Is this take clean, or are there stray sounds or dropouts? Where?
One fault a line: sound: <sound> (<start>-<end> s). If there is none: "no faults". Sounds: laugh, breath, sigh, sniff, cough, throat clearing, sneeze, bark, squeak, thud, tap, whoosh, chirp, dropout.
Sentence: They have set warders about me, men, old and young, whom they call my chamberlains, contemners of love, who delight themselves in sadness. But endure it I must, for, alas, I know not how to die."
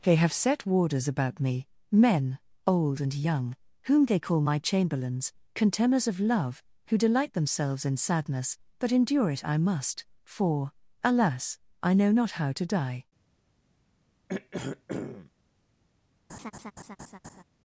sound: throat clearing (14.3-15.3 s)
sound: laugh (16.3-17.4 s)